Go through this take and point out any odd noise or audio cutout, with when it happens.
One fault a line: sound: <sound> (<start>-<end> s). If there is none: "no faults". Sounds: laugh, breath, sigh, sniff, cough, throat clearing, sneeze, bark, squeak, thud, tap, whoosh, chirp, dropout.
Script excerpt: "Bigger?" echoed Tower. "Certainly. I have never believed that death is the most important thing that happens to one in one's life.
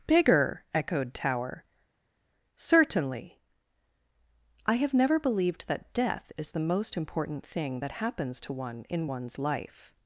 no faults